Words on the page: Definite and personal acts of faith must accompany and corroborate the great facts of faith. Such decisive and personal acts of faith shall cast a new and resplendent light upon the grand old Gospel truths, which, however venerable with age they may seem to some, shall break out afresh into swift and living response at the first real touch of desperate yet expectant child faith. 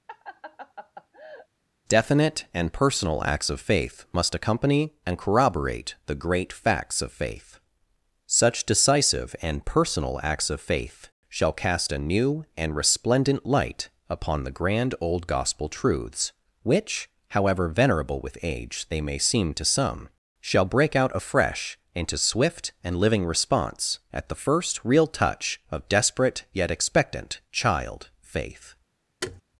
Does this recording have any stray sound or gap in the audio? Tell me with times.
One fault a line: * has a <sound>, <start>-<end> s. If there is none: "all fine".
* has a laugh, 0.1-1.5 s
* has a thud, 29.2-29.4 s